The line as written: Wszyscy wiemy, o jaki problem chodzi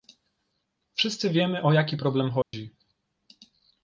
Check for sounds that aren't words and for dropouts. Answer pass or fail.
fail